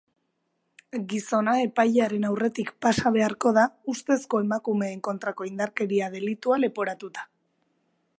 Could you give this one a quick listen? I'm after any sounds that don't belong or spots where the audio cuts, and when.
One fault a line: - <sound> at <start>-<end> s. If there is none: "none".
none